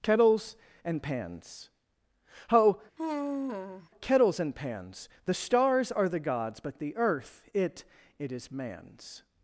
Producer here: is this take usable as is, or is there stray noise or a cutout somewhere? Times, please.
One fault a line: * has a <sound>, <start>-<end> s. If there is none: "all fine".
* has a sigh, 3.0-3.9 s